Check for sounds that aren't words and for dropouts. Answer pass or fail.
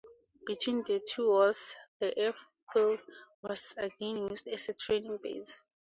pass